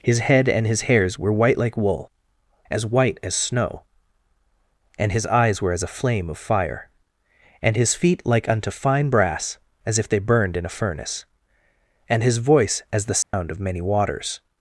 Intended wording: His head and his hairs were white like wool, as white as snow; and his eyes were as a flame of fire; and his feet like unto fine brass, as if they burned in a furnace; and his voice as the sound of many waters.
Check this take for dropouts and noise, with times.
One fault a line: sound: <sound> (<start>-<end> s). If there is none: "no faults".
sound: dropout (13.2-13.3 s)